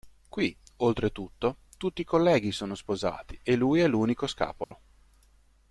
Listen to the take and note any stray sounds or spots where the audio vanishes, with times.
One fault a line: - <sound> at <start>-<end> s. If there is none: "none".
- dropout at 4.6-4.7 s